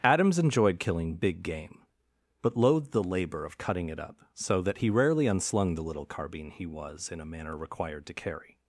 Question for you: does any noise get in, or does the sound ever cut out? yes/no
no